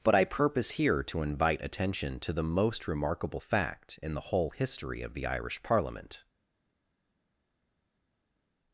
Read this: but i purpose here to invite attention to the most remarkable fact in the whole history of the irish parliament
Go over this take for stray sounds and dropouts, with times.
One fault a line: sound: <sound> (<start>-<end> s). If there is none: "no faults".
no faults